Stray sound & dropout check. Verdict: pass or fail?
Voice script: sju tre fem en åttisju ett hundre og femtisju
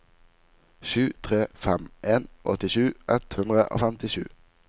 pass